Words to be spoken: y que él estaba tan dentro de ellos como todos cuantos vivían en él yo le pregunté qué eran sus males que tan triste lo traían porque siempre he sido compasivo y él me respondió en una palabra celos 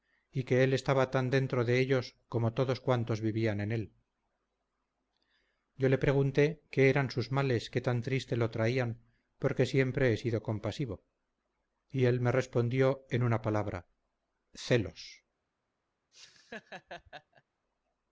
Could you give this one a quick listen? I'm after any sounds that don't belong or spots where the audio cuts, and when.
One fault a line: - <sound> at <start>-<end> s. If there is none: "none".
- laugh at 16.1-17.4 s